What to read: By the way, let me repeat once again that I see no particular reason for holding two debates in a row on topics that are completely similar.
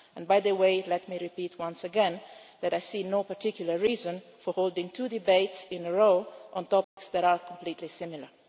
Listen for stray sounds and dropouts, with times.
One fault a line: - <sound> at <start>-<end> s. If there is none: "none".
- dropout at 6.8-7.0 s